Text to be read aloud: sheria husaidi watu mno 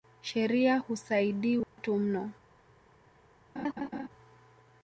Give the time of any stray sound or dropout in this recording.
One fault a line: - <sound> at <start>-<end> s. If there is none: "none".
- dropout at 1.6-1.8 s
- laugh at 3.6-4.1 s